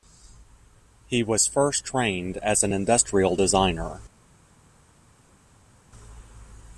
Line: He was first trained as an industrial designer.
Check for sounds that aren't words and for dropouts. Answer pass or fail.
pass